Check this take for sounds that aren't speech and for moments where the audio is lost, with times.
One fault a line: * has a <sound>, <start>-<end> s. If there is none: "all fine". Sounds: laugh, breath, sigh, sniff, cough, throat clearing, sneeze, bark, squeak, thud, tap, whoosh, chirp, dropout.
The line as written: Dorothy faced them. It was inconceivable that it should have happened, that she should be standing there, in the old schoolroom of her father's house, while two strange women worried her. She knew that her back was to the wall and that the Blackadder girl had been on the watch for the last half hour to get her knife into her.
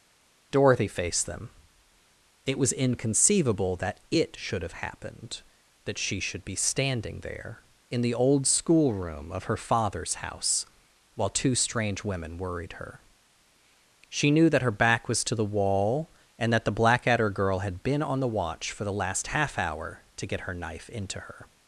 all fine